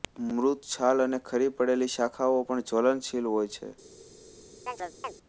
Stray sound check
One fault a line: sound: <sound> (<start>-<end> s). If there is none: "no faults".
sound: chirp (4.7-5.1 s)